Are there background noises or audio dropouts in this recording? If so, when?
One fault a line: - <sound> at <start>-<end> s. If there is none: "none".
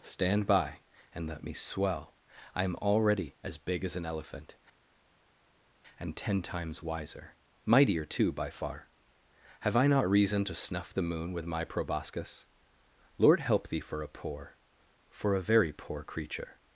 none